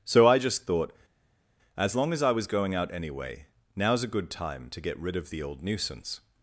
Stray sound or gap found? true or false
false